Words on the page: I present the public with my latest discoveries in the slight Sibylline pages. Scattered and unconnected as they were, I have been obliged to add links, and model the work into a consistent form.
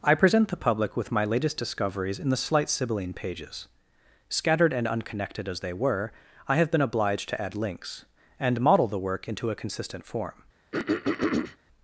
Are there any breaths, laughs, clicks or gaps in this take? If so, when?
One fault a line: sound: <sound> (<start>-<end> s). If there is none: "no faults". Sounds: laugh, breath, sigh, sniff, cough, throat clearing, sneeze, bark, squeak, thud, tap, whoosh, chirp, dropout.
sound: throat clearing (10.7-11.6 s)